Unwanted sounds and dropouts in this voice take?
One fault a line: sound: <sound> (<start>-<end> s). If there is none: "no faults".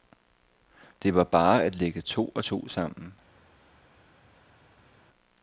no faults